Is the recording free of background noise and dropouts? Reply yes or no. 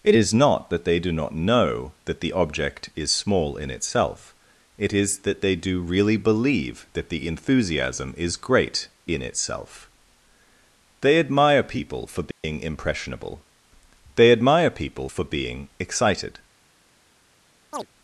no